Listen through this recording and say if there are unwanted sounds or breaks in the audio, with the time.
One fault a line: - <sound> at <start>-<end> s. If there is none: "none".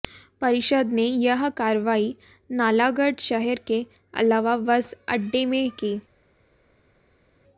none